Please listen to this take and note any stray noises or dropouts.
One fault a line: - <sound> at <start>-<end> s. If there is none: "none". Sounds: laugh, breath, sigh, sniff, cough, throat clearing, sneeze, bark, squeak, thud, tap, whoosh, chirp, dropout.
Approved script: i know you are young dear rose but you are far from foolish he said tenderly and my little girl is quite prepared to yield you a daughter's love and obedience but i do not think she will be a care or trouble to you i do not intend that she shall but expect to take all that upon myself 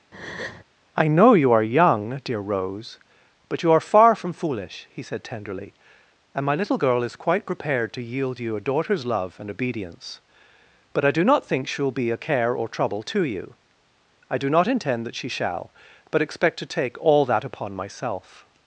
- breath at 0.1-0.6 s